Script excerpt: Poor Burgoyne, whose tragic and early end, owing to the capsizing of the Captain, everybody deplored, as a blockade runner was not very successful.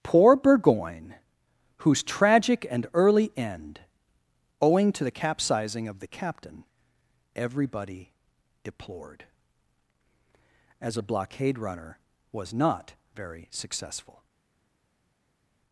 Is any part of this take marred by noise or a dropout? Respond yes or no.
no